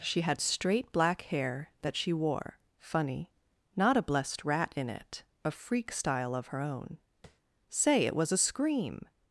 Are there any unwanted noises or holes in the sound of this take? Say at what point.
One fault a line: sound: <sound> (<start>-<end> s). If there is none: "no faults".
sound: tap (7.2-7.4 s)